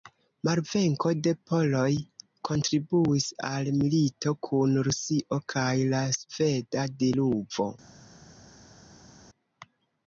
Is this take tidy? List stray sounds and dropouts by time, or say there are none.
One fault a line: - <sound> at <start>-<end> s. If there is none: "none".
none